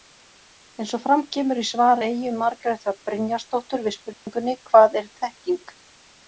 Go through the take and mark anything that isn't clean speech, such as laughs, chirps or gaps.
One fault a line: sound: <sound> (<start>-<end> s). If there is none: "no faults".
sound: dropout (4.1-4.3 s)